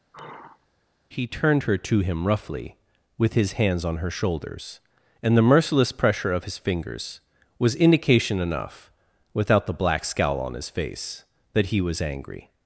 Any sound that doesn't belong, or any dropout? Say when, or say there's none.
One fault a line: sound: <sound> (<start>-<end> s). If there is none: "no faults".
sound: sigh (0.1-0.7 s)